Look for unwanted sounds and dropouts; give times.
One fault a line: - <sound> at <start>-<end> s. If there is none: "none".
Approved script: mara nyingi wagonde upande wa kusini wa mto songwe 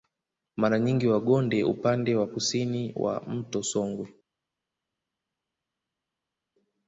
none